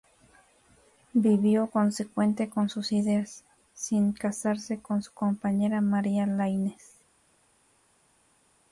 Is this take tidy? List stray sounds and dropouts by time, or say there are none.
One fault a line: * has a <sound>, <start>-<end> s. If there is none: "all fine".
all fine